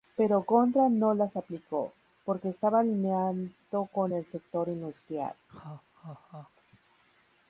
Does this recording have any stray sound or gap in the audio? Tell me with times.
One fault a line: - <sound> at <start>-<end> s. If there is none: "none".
- laugh at 5.5-6.5 s